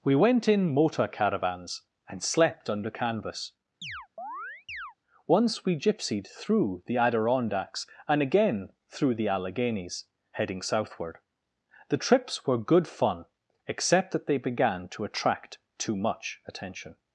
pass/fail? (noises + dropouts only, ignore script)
fail